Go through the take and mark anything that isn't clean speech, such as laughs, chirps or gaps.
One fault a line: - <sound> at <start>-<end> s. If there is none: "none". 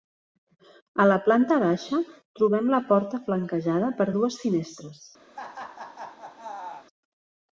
- laugh at 5.3-6.9 s